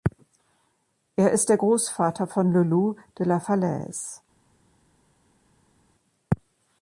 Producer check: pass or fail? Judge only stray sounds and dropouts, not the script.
pass